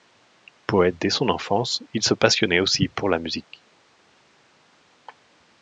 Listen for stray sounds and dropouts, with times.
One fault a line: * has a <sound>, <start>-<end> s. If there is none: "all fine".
all fine